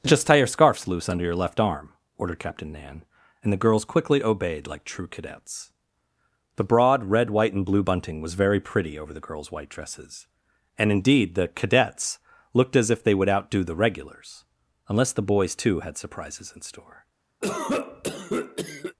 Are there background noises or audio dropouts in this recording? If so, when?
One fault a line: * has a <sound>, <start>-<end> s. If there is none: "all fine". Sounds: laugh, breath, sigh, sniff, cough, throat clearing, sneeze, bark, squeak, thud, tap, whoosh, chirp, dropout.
* has a cough, 17.4-19.0 s